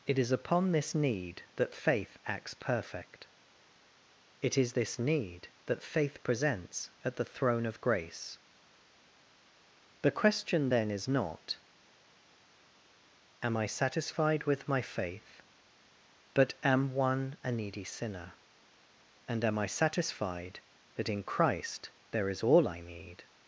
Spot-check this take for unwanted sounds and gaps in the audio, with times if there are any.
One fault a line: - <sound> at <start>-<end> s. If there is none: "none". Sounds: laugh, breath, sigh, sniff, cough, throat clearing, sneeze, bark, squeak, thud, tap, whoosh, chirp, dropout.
none